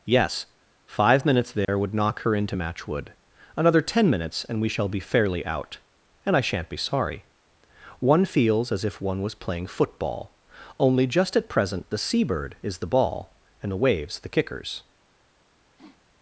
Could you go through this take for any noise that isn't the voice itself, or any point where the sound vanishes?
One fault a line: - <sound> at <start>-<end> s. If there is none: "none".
- dropout at 1.6-1.7 s
- sniff at 15.8-16.0 s